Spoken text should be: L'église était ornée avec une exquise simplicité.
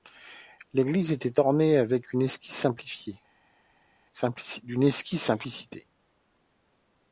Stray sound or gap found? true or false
false